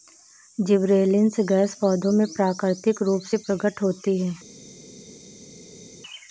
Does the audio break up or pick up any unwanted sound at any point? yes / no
no